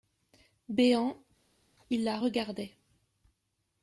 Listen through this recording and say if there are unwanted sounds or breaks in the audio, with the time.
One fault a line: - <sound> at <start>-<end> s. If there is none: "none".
none